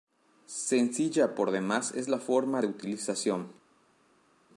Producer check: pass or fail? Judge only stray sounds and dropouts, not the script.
pass